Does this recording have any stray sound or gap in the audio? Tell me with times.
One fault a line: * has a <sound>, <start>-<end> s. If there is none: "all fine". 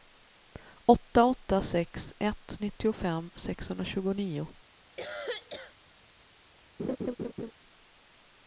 * has a cough, 5.0-5.7 s
* has a laugh, 6.8-7.5 s